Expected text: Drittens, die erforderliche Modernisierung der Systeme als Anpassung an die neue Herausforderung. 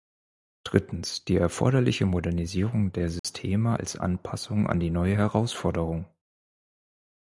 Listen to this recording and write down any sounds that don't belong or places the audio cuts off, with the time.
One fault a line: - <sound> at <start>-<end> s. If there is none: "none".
- dropout at 3.2-3.2 s